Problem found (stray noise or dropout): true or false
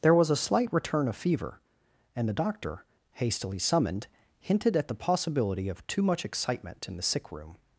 false